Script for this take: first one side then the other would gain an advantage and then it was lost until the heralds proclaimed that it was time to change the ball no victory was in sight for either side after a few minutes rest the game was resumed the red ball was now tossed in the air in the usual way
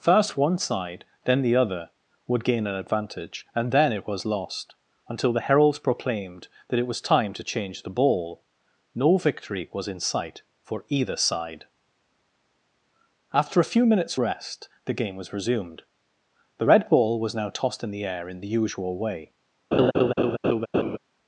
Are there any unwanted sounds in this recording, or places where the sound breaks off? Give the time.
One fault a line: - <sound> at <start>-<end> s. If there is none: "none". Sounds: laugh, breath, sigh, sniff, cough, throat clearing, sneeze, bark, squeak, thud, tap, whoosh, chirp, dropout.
- laugh at 19.7-21.0 s